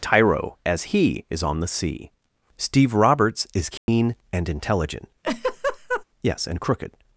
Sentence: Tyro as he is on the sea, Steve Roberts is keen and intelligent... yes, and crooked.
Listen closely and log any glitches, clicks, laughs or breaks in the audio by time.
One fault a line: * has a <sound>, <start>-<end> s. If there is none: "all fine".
* has a dropout, 3.8-3.9 s
* has a laugh, 5.2-6.0 s